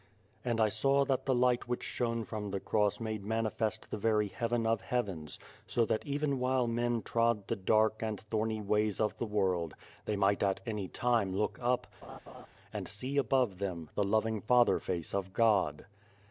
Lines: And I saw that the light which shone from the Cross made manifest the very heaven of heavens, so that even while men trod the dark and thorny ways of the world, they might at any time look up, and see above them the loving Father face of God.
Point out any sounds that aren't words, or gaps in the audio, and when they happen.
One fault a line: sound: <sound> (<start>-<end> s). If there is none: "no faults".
sound: laugh (12.0-12.5 s)